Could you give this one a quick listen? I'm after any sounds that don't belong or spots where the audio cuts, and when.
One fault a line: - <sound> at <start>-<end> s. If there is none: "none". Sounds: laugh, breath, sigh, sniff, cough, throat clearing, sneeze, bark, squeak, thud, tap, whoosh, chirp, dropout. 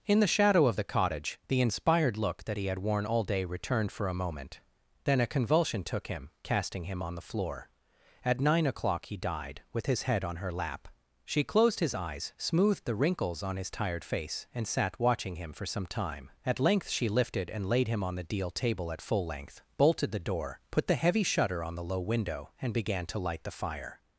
none